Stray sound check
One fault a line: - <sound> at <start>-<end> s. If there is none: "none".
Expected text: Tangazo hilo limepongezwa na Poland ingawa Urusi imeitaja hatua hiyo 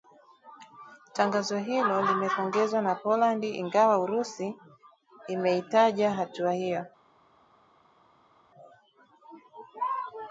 none